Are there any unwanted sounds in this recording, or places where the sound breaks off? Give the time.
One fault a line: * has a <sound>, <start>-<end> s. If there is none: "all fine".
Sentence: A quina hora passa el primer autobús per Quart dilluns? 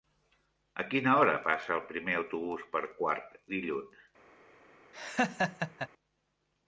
* has a laugh, 4.9-5.9 s